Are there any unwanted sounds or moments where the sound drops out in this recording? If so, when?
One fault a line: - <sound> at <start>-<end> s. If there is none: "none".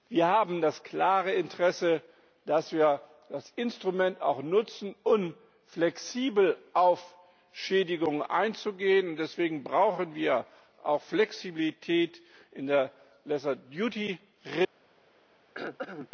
- throat clearing at 15.5-16.1 s